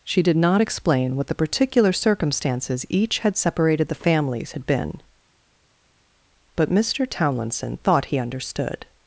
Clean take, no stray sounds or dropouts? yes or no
yes